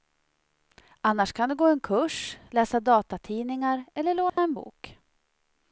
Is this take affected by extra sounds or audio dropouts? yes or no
yes